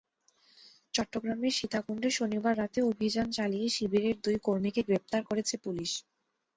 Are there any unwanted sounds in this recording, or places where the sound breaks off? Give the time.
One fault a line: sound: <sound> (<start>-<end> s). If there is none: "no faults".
no faults